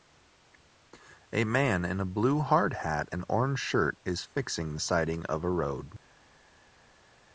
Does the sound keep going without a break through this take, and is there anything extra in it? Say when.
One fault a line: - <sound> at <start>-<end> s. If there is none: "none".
none